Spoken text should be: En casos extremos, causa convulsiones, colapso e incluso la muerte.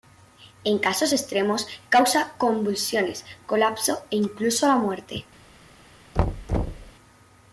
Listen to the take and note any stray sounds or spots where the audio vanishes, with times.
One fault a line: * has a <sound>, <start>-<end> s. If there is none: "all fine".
* has a thud, 6.2-6.9 s